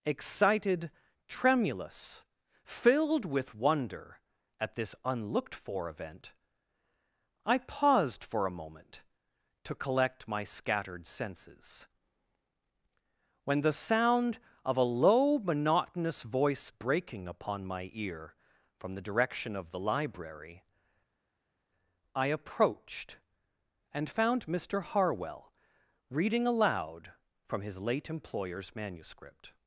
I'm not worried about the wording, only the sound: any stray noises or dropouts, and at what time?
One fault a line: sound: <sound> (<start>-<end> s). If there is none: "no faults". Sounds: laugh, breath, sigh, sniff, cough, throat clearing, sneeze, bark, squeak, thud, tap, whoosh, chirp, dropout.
no faults